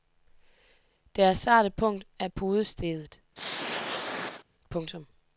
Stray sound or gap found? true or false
true